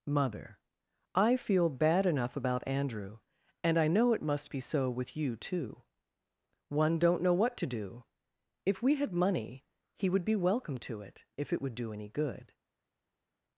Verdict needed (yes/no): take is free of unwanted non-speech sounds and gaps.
yes